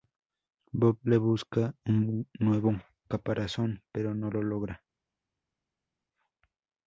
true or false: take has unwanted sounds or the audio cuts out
false